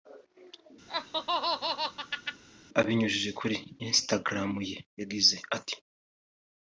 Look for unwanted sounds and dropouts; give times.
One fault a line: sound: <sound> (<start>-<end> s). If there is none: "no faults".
sound: laugh (0.9-2.4 s)